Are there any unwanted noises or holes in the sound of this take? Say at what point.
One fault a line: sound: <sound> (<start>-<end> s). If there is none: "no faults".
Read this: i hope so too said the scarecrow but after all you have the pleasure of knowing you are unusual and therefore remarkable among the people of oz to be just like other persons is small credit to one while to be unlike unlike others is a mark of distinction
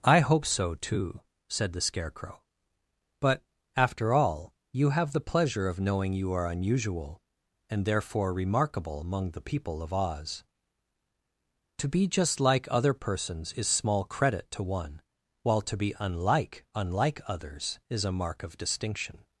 no faults